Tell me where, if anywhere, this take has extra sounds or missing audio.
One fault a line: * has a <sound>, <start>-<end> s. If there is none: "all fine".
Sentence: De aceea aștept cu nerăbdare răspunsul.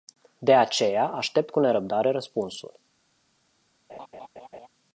* has a laugh, 3.9-4.7 s